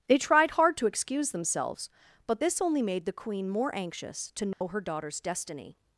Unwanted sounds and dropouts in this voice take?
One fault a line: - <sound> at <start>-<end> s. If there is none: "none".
- dropout at 4.5-4.6 s